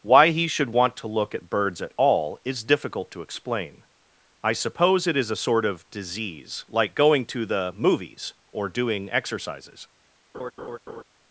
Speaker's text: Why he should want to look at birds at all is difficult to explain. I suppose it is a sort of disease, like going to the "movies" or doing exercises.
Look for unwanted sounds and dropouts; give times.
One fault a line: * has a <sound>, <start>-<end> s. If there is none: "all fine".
* has a laugh, 10.3-11.0 s